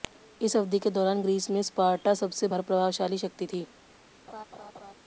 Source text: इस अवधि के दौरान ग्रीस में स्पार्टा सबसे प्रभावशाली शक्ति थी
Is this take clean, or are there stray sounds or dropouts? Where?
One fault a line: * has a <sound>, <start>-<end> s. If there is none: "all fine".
* has a laugh, 4.3-4.9 s